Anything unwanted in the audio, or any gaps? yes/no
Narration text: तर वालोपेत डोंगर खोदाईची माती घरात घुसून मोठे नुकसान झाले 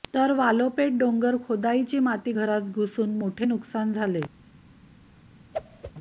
yes